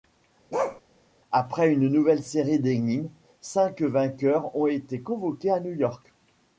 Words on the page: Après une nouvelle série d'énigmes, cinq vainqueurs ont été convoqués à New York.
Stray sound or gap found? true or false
true